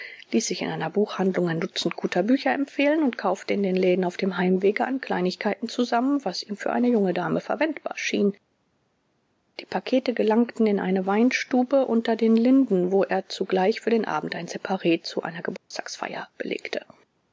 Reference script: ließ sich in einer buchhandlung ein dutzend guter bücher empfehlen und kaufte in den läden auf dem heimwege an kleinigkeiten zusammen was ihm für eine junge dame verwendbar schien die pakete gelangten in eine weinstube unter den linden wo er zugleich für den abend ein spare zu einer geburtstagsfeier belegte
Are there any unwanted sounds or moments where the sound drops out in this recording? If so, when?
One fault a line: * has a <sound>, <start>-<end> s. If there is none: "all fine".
* has a dropout, 15.6-15.7 s